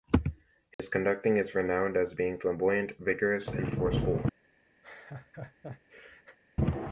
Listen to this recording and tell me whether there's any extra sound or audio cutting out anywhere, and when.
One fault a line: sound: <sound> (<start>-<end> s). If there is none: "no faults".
sound: dropout (0.7-0.8 s)
sound: laugh (4.8-6.4 s)